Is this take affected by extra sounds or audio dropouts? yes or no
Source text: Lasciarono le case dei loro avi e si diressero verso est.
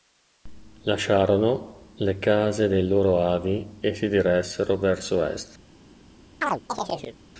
yes